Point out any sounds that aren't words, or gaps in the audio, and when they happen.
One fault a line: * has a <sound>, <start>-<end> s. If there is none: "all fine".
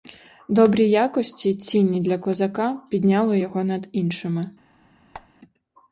* has a squeak, 5.1-5.3 s